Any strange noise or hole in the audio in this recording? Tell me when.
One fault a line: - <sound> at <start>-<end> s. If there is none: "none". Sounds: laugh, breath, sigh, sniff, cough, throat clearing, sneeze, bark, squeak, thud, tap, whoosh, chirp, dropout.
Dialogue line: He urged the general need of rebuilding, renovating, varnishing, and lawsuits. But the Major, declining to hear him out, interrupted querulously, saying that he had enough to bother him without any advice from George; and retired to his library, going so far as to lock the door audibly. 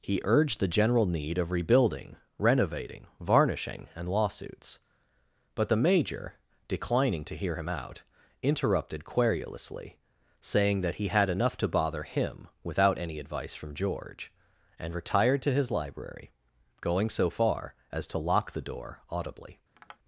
- tap at 19.7-20.0 s